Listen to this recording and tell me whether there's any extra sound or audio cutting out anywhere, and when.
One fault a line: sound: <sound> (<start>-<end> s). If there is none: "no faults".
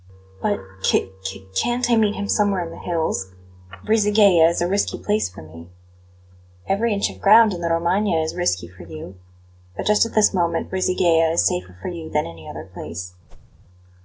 sound: whoosh (13.3-13.5 s)